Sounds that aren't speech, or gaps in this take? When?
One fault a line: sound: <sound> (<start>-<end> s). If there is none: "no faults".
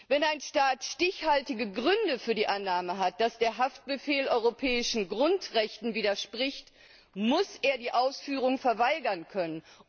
no faults